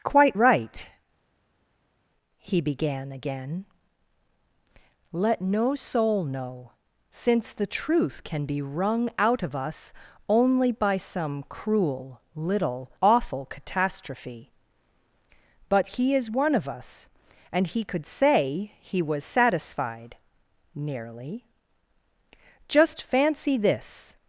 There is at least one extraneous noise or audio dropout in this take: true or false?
false